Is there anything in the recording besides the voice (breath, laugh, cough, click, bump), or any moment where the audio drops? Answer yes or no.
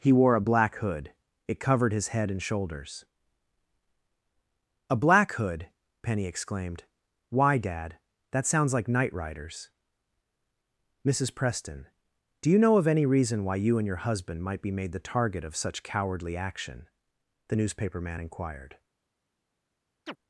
yes